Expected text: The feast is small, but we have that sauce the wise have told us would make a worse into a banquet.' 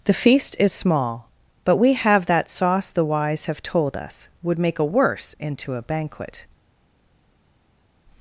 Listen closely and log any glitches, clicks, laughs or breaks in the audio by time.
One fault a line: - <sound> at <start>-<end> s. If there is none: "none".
none